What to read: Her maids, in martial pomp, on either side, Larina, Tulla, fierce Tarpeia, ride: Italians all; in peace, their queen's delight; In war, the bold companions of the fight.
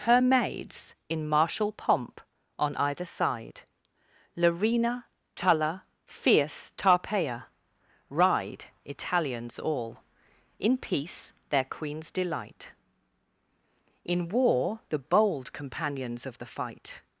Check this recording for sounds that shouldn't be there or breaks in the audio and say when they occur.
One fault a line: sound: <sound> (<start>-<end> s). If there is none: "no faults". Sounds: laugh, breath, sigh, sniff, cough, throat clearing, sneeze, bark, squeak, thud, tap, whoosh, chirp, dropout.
no faults